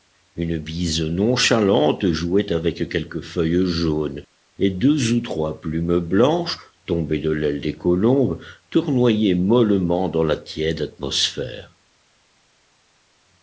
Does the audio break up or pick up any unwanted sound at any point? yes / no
no